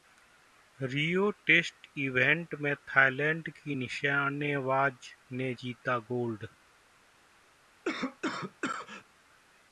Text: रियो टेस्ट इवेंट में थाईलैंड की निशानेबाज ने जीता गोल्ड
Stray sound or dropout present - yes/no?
yes